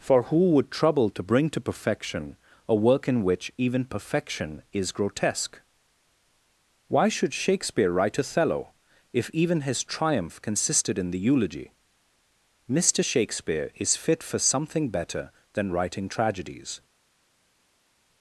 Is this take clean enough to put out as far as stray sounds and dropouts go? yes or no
yes